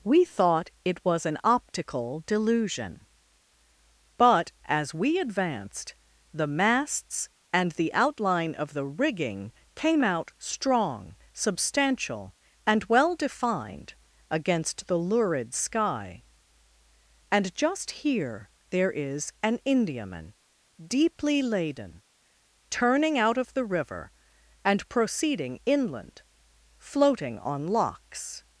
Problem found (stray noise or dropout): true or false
false